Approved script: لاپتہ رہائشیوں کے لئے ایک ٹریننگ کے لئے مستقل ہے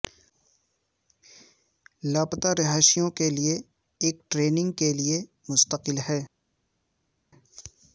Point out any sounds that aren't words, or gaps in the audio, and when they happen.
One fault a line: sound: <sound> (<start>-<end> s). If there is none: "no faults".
no faults